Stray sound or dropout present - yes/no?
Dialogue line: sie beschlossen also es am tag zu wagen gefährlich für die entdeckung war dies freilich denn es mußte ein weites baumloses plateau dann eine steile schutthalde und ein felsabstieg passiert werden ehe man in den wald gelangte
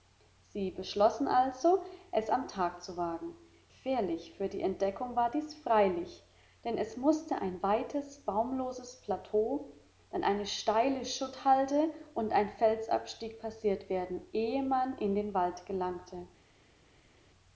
no